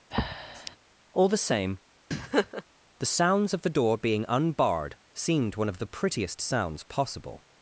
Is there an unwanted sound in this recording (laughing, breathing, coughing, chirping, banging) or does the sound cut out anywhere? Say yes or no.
yes